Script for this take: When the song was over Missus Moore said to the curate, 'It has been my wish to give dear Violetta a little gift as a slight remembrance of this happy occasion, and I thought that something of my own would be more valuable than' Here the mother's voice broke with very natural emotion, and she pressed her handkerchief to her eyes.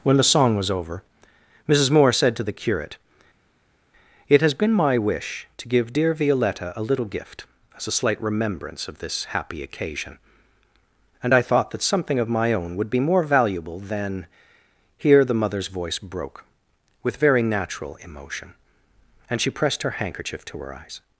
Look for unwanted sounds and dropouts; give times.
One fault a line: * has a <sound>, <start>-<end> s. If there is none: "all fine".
all fine